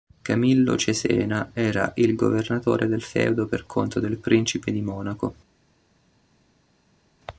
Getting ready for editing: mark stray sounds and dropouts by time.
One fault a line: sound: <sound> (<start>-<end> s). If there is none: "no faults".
no faults